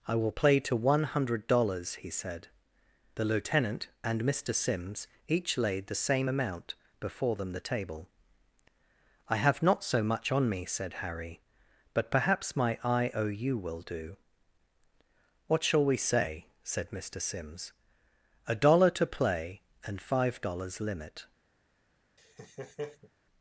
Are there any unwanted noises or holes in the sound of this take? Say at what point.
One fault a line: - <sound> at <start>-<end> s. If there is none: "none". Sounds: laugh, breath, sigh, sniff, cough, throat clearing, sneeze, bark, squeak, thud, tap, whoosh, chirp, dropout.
- laugh at 22.2-23.1 s